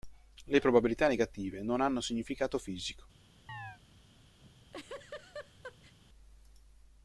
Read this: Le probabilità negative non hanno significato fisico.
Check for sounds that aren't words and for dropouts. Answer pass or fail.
fail